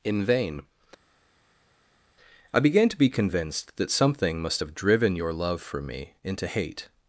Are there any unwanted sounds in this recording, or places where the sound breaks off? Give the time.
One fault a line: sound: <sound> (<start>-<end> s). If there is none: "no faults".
no faults